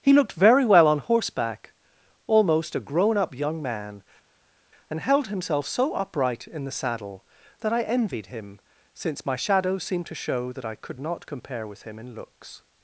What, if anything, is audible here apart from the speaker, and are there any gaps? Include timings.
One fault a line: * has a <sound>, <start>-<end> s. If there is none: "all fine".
all fine